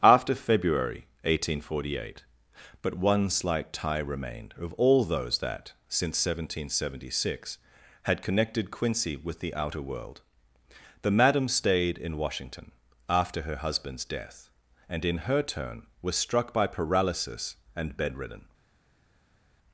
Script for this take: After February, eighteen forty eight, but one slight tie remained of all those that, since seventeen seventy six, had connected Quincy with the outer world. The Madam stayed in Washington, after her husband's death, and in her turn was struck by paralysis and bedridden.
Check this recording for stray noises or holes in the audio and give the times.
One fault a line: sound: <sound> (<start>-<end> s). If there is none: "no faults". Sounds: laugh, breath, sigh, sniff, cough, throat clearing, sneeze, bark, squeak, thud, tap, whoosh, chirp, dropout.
no faults